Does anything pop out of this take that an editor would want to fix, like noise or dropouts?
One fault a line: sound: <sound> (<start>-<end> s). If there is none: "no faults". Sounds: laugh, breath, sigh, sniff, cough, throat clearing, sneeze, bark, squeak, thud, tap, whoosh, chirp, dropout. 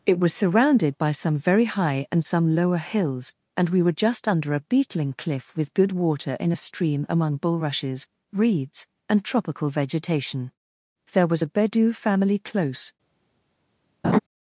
sound: laugh (14.0-14.2 s)